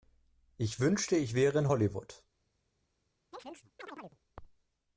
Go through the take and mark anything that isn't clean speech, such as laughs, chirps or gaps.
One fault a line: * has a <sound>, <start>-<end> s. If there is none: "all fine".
* has a chirp, 3.3-4.2 s